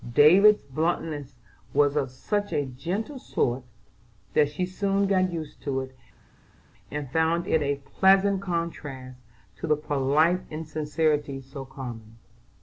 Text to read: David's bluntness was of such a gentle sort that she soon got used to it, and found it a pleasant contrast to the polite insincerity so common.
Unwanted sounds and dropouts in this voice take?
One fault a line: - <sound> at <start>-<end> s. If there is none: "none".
none